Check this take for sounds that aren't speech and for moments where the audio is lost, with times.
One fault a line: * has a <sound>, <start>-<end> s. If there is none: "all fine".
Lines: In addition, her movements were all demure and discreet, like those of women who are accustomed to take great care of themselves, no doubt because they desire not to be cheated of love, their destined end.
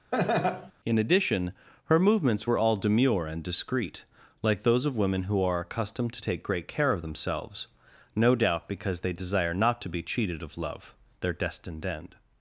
* has a laugh, 0.1-0.7 s